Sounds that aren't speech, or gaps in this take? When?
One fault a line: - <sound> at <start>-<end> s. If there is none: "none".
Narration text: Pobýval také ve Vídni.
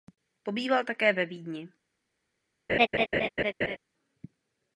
- laugh at 2.7-3.8 s